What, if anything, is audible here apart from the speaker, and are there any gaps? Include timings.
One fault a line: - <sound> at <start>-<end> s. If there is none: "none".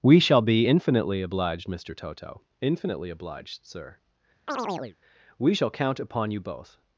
- chirp at 4.5-5.0 s